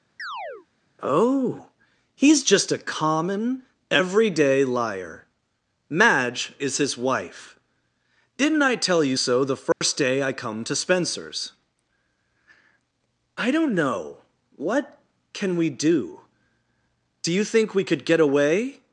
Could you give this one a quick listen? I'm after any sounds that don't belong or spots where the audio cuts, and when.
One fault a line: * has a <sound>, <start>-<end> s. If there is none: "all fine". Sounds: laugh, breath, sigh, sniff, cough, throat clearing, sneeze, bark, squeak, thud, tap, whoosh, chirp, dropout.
* has a chirp, 0.2-0.7 s
* has a dropout, 9.7-9.8 s